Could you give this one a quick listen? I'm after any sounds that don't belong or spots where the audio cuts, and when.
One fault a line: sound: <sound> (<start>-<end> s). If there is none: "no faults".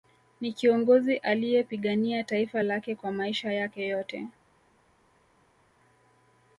no faults